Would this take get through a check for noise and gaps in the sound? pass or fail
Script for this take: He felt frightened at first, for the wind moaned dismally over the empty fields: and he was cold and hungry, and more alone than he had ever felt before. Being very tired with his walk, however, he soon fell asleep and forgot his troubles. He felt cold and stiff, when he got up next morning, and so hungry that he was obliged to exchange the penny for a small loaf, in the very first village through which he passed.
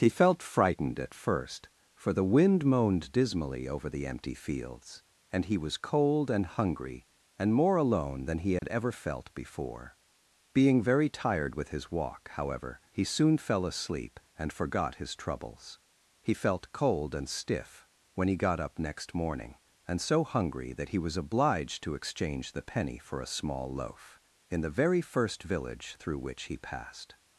fail